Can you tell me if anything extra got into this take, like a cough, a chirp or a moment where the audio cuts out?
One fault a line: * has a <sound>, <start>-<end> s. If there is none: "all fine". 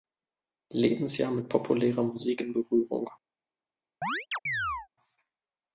* has a chirp, 4.0-4.9 s